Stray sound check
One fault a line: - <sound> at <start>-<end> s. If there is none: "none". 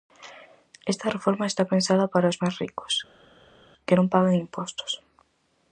none